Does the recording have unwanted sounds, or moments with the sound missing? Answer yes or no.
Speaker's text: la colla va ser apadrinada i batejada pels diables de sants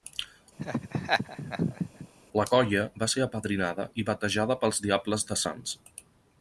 yes